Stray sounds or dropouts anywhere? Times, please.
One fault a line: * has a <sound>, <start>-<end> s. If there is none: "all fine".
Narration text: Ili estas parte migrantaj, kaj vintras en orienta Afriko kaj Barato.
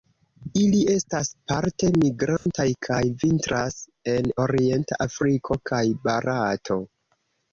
* has a dropout, 2.4-2.5 s